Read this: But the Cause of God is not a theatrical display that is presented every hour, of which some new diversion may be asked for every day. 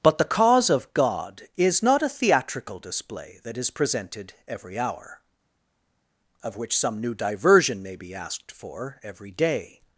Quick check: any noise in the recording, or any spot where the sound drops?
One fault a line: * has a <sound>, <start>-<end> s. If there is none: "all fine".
all fine